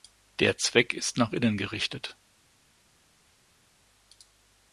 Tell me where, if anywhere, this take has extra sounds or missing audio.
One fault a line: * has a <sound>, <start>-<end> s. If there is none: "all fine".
all fine